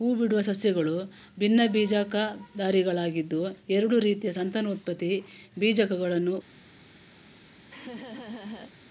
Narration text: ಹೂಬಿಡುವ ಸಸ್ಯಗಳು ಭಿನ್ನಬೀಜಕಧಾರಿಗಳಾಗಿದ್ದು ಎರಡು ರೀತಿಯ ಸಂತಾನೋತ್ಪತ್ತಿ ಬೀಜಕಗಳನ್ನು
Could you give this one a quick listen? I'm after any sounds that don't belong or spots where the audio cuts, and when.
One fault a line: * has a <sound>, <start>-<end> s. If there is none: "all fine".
* has a laugh, 7.7-8.7 s